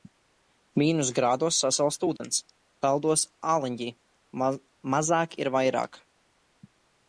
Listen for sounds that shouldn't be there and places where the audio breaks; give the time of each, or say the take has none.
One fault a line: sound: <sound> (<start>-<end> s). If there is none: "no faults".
sound: dropout (2.2-2.2 s)